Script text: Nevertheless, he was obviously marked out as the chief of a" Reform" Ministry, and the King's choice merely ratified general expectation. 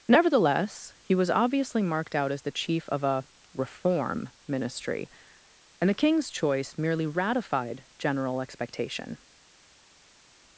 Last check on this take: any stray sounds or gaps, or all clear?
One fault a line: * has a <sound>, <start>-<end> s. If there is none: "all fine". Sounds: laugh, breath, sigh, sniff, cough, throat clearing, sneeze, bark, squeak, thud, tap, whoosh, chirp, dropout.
all fine